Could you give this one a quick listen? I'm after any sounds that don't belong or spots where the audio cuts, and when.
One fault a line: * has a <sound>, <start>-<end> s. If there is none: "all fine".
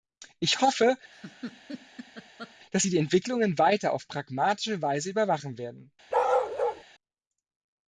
* has a laugh, 1.1-2.5 s
* has a bark, 6.1-6.8 s